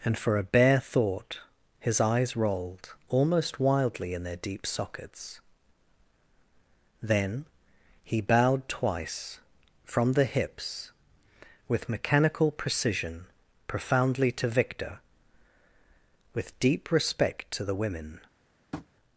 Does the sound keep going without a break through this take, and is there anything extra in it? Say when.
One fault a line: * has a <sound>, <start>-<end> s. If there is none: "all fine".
* has a tap, 18.7-18.9 s